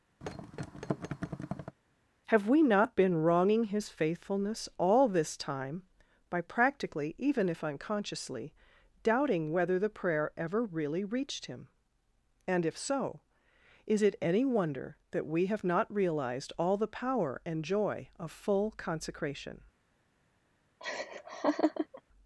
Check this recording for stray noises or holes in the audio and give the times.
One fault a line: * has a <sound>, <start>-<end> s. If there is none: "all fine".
* has a thud, 0.2-1.8 s
* has a laugh, 20.8-22.0 s